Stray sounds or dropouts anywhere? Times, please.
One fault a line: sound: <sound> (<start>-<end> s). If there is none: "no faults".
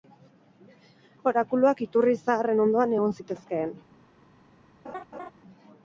sound: laugh (4.8-5.3 s)